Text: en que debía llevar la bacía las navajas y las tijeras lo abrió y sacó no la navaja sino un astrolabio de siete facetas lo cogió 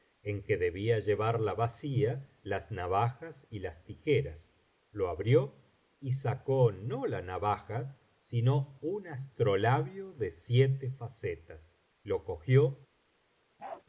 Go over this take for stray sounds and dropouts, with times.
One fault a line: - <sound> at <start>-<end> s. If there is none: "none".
- bark at 13.6-13.8 s